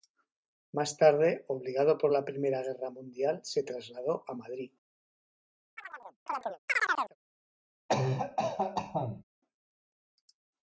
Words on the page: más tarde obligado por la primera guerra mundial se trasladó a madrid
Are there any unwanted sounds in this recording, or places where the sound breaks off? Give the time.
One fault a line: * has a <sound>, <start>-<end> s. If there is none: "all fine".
* has a chirp, 5.8-7.2 s
* has a cough, 7.9-9.2 s